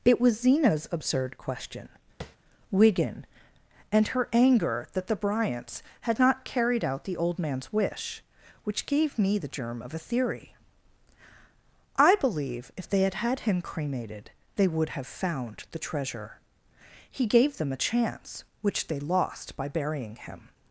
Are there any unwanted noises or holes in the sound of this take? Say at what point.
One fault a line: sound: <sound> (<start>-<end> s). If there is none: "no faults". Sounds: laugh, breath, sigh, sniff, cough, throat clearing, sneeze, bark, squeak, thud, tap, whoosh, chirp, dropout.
sound: tap (2.2-2.4 s)